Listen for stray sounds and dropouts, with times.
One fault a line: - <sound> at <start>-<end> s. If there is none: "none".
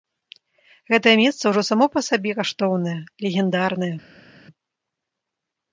none